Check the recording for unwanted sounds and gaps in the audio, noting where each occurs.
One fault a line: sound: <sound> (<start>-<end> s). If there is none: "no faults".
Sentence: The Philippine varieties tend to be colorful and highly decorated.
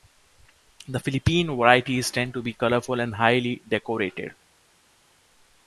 no faults